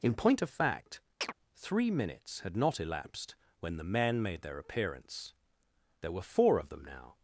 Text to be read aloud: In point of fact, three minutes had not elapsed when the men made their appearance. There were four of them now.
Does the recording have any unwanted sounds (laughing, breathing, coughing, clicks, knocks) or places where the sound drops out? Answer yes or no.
yes